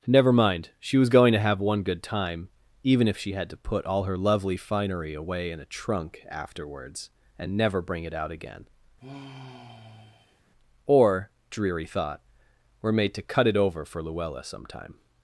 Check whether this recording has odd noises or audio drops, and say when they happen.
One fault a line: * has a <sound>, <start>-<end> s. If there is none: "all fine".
* has a sigh, 9.0-10.4 s